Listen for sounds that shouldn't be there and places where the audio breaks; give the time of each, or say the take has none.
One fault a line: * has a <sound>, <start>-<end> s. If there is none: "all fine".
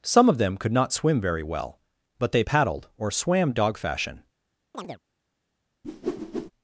* has a chirp, 4.7-5.0 s
* has a whoosh, 5.8-6.5 s